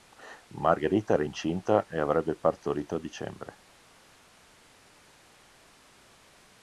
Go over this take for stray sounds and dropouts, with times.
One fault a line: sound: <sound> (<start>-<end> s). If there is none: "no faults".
no faults